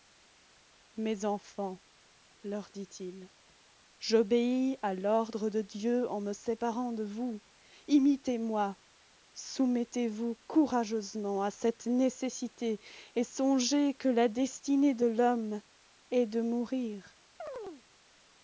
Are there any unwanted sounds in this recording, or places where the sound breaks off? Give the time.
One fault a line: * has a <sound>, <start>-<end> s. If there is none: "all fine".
* has a chirp, 17.4-17.8 s